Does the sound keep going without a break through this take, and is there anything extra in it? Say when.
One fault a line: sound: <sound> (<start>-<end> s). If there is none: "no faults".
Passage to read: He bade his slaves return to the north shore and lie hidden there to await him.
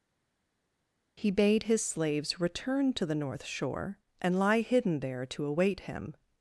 no faults